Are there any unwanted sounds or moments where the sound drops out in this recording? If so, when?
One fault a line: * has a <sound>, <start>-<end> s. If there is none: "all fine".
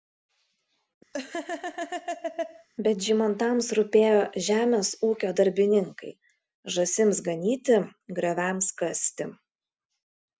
* has a laugh, 1.1-2.7 s